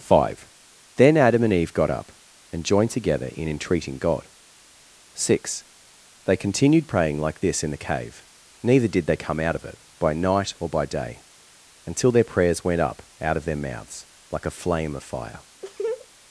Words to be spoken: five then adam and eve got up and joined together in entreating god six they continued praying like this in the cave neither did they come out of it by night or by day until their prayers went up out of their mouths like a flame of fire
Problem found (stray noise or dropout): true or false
true